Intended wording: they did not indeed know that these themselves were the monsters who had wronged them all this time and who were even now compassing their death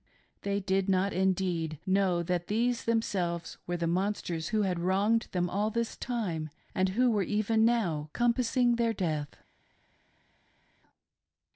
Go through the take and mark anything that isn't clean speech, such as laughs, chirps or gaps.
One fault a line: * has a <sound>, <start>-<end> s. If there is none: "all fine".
all fine